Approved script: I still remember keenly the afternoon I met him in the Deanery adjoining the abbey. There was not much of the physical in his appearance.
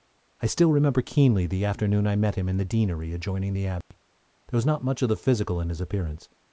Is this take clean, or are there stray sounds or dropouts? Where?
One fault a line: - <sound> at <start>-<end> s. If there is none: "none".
- dropout at 3.8-3.9 s